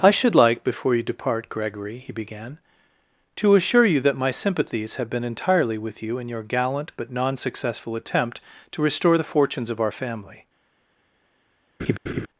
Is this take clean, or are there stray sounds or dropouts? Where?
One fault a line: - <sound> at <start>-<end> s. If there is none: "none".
- laugh at 11.8-12.3 s